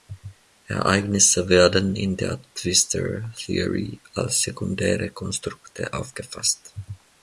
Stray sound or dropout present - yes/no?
no